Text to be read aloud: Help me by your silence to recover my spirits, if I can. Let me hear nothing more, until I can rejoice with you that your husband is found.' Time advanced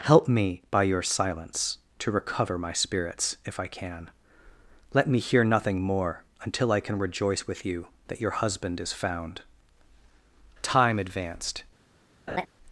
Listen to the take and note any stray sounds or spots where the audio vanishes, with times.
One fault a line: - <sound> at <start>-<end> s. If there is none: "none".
- laugh at 12.3-12.5 s